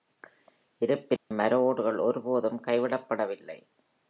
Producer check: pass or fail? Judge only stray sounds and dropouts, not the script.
fail